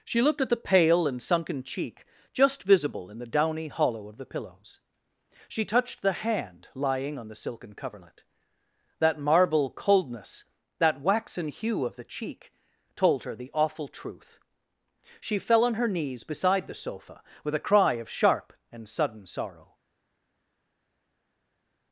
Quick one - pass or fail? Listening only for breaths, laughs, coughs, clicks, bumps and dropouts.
pass